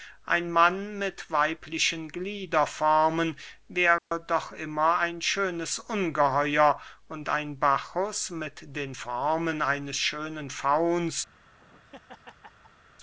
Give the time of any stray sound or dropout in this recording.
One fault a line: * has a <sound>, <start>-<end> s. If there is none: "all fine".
* has a dropout, 4.0-4.1 s
* has a laugh, 11.3-12.8 s